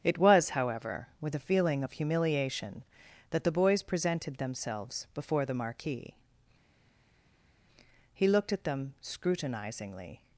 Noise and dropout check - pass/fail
pass